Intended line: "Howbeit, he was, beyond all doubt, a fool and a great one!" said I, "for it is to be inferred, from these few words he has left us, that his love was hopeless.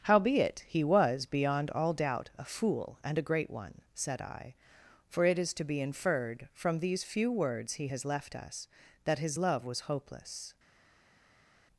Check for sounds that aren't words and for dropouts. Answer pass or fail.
pass